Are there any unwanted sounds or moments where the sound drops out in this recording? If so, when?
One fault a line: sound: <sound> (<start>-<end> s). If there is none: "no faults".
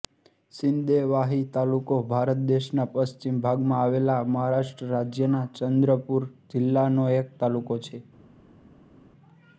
no faults